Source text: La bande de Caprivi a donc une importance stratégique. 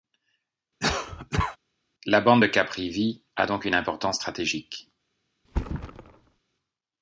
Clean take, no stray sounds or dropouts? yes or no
no